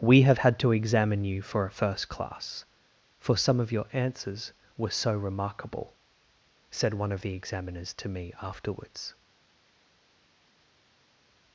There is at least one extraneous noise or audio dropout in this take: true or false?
false